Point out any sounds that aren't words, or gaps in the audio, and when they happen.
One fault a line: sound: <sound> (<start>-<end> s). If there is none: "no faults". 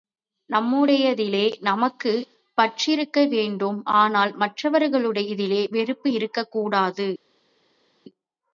no faults